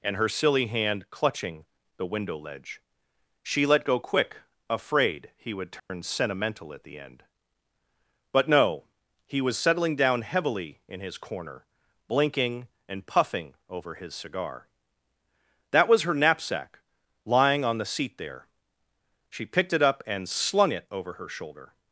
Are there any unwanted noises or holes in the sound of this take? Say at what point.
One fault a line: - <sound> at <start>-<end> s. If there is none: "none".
- dropout at 5.8-5.9 s